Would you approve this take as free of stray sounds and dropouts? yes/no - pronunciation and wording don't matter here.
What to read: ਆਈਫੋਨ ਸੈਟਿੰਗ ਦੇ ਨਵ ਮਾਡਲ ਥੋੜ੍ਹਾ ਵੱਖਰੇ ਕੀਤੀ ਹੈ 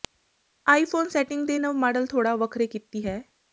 yes